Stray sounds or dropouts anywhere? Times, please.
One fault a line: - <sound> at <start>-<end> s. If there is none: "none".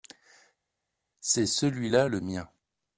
none